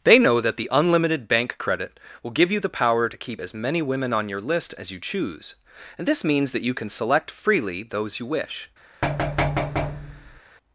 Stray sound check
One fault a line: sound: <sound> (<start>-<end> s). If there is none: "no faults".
sound: thud (9.0-10.4 s)